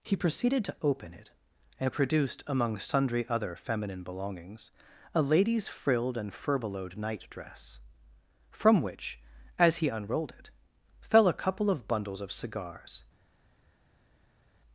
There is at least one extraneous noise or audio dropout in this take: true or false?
false